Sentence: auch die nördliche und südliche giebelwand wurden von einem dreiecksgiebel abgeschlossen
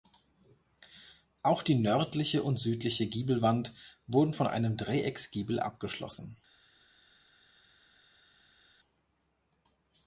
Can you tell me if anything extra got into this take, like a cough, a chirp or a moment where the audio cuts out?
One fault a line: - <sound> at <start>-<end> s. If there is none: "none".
none